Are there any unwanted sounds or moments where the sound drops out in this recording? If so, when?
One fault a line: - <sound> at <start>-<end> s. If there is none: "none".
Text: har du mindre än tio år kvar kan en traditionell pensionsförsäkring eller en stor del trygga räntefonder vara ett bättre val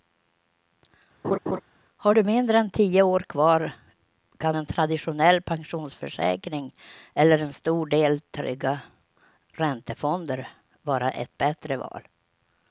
- laugh at 1.2-1.6 s